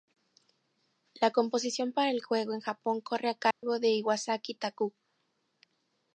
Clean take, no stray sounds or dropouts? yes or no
no